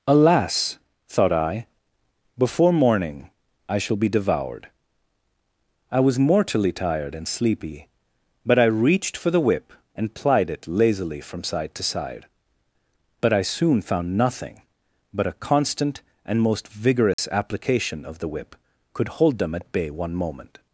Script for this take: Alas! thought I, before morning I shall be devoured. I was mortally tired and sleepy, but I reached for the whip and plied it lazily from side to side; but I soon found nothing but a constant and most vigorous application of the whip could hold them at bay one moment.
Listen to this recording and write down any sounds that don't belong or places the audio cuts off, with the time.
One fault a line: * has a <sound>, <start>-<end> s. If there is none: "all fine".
* has a dropout, 17.1-17.2 s